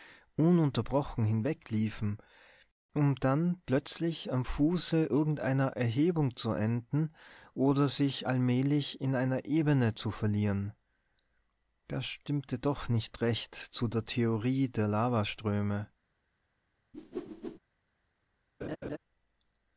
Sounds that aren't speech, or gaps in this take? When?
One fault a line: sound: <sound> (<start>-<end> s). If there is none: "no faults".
sound: whoosh (16.9-17.6 s)
sound: laugh (18.6-19.0 s)